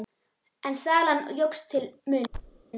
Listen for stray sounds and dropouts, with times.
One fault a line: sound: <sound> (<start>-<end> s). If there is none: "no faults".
sound: thud (2.3-2.6 s)